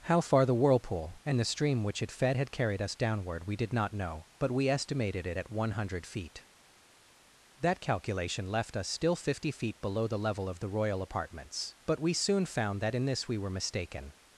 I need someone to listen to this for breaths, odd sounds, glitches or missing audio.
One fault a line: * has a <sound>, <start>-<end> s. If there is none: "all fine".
all fine